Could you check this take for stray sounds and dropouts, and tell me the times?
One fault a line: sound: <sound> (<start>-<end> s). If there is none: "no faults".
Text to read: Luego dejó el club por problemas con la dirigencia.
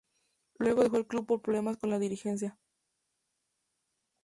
no faults